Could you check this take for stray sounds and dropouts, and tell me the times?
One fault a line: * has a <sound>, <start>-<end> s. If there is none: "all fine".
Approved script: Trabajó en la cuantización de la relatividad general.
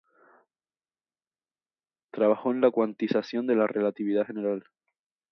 all fine